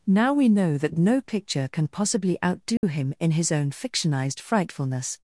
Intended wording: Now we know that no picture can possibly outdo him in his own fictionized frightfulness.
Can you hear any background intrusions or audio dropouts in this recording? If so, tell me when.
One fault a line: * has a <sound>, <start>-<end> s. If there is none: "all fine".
* has a dropout, 2.8-2.8 s